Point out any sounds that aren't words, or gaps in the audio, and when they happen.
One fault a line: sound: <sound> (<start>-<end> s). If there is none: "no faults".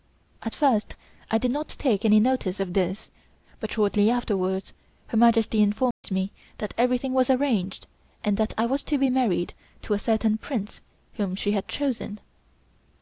sound: dropout (5.9-6.0 s)